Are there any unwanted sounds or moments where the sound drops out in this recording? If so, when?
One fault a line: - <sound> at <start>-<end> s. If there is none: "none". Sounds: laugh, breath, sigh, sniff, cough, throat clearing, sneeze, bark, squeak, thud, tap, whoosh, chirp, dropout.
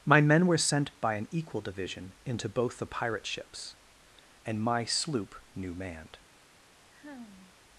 - sigh at 6.9-7.5 s